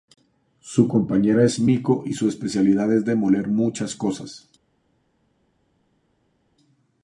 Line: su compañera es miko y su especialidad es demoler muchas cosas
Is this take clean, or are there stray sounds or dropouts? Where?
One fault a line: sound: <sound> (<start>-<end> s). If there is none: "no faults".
no faults